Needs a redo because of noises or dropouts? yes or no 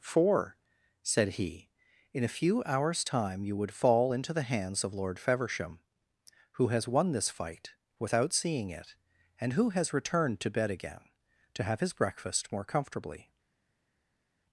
no